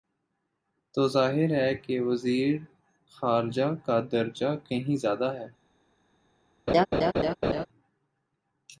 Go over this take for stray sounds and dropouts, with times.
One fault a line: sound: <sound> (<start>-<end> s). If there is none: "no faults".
sound: laugh (6.7-7.7 s)